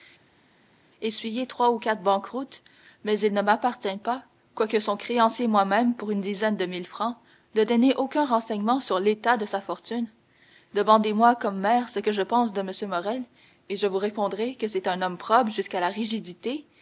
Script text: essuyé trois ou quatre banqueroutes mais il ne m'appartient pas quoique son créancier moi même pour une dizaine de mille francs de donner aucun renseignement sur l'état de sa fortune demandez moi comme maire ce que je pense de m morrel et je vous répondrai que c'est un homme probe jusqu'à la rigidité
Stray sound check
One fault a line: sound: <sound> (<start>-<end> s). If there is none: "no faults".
no faults